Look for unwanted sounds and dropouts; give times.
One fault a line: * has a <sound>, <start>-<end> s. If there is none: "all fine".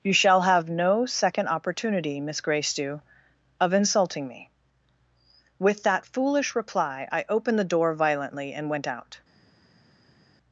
all fine